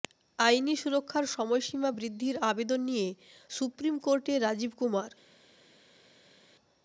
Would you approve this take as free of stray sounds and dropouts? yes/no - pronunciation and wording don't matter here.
yes